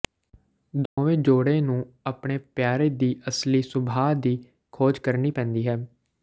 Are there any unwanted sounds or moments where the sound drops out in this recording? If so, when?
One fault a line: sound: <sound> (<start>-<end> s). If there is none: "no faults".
sound: dropout (0.9-1.0 s)